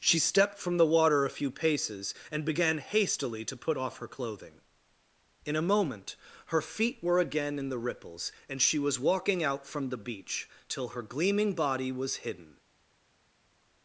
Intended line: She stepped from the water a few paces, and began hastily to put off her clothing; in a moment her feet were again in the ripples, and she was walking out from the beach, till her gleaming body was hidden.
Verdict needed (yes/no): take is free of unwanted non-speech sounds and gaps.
yes